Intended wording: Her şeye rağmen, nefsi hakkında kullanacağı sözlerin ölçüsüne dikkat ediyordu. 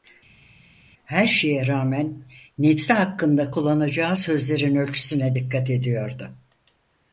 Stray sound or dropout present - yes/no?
no